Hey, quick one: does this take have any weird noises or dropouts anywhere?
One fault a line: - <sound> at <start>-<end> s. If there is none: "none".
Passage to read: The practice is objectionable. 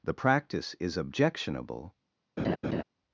- laugh at 2.4-2.8 s